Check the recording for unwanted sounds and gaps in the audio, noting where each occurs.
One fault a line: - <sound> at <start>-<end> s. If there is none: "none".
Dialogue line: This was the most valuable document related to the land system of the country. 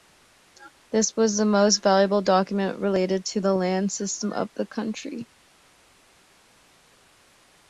none